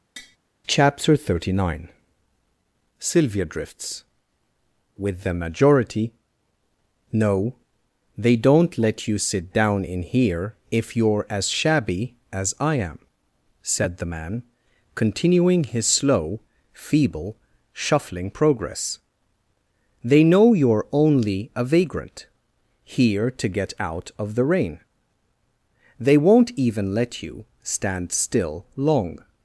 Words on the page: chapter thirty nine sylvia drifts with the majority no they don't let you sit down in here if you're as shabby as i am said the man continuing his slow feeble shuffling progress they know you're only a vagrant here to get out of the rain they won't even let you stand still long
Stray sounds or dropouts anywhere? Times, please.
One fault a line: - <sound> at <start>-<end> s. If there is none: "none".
- tap at 0.2-0.4 s